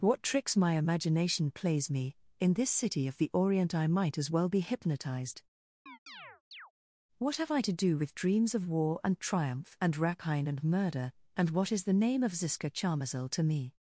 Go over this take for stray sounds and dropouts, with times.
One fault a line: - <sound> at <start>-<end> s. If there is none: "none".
- chirp at 5.9-6.7 s